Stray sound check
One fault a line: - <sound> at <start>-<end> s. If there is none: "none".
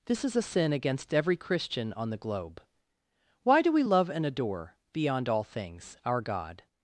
none